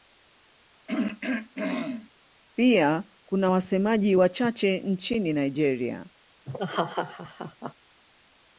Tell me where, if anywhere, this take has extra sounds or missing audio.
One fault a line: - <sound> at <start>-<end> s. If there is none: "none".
- throat clearing at 0.9-2.1 s
- laugh at 6.5-7.7 s